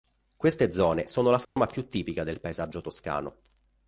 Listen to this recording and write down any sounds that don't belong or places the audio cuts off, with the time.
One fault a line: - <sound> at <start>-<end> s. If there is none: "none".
- dropout at 1.4-1.6 s